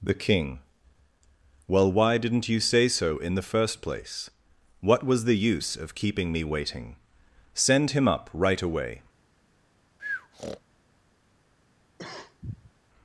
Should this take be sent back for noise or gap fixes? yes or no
yes